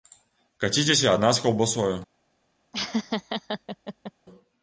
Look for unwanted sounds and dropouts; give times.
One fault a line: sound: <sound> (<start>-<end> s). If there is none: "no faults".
sound: laugh (2.7-4.1 s)